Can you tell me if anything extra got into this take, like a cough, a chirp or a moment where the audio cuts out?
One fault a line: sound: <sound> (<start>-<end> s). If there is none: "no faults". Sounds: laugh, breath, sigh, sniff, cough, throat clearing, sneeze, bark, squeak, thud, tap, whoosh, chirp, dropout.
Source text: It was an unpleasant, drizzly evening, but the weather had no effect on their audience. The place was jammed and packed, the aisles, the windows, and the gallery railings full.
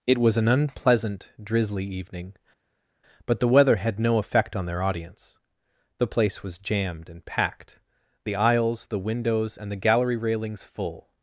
no faults